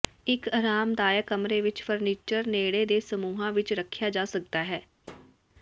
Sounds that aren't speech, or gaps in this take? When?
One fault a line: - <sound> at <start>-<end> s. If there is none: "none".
- thud at 5.0-5.4 s